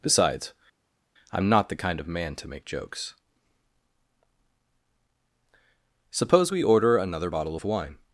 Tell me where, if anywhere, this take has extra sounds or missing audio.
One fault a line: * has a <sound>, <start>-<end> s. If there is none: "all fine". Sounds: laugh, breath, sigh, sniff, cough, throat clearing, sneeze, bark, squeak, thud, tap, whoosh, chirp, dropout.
all fine